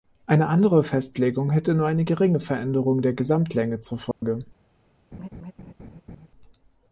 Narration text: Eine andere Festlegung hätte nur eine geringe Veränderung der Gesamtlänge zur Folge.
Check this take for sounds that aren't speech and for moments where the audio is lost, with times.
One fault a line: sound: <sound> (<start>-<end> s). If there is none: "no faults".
sound: dropout (4.1-4.2 s)
sound: laugh (5.1-6.3 s)